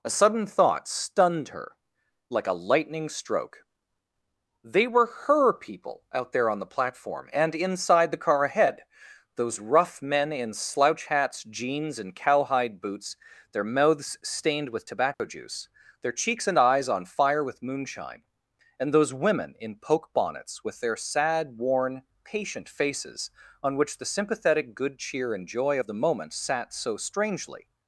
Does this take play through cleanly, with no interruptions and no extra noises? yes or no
no